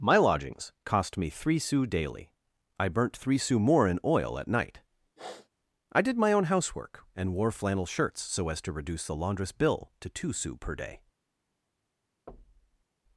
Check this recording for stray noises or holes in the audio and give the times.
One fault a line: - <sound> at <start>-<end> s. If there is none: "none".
- sniff at 5.2-5.5 s
- thud at 12.3-12.9 s